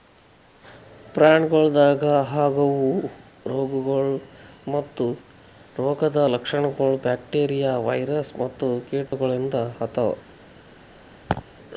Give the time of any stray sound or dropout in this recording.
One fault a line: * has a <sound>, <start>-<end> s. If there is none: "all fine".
* has a dropout, 9.1-9.1 s
* has a laugh, 11.3-11.5 s